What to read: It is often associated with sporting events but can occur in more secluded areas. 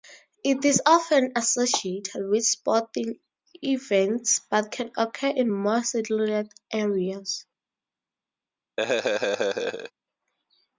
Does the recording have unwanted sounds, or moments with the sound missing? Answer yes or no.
yes